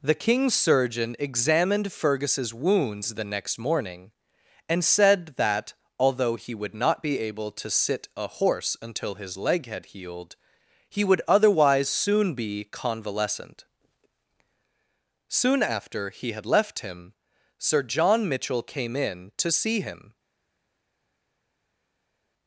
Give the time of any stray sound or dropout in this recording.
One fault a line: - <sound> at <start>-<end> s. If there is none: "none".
none